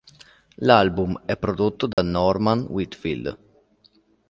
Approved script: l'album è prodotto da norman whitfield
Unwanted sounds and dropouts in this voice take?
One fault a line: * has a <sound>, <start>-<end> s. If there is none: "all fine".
* has a dropout, 1.9-2.0 s